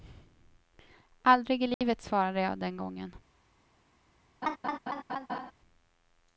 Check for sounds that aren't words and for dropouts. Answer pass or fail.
fail